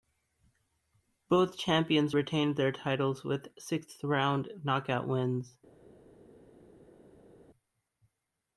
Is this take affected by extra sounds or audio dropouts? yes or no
no